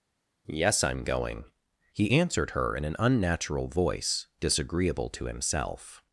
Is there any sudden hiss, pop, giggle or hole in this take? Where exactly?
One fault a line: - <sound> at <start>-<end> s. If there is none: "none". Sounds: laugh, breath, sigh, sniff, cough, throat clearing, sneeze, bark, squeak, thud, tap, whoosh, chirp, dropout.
none